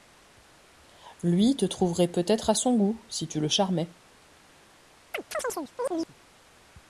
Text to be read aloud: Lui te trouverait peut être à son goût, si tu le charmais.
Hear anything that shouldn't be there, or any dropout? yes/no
yes